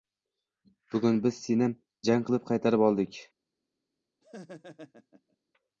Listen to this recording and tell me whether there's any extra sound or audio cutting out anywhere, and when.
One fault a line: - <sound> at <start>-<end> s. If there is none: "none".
- laugh at 4.2-5.4 s